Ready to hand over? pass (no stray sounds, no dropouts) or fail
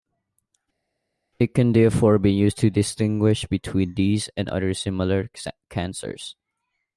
pass